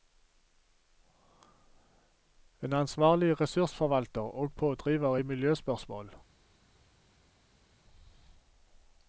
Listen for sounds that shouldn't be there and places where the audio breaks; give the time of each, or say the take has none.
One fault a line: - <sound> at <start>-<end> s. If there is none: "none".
none